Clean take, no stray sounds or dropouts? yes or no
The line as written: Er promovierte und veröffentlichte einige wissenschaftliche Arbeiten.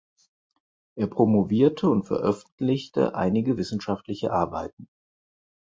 yes